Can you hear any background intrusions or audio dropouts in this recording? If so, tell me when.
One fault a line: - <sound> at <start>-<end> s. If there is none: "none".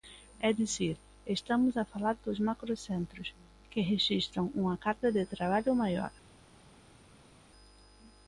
none